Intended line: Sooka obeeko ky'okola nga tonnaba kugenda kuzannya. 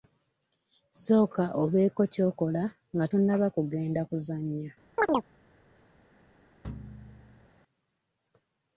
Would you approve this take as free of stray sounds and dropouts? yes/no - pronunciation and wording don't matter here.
no